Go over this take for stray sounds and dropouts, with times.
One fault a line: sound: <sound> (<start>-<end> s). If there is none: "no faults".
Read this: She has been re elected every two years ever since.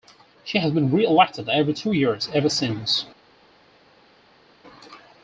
no faults